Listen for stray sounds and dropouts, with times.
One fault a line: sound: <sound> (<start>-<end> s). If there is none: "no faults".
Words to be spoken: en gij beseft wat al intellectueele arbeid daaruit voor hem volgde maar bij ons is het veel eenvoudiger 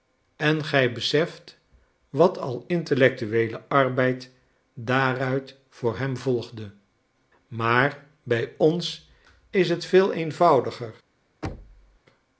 sound: thud (11.4-12.0 s)